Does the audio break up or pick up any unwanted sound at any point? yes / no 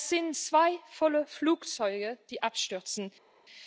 no